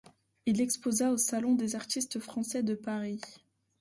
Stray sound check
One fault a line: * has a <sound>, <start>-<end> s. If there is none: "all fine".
all fine